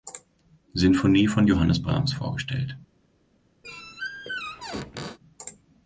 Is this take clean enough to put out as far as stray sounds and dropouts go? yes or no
no